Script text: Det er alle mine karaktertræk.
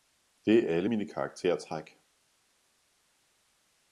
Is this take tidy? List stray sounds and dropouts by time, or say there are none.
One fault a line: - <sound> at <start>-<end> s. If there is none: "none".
none